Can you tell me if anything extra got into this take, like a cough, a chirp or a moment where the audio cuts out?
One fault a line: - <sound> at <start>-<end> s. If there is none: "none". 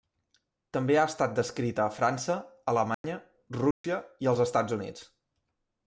- dropout at 2.9-3.0 s
- dropout at 3.7-3.8 s